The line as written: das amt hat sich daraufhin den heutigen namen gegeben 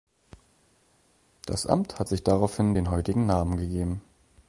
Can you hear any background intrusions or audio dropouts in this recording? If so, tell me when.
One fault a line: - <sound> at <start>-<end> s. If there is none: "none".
none